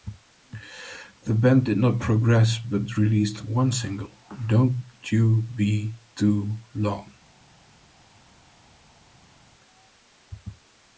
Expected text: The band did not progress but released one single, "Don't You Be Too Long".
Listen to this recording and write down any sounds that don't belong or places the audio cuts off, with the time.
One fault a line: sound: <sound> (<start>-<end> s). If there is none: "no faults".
no faults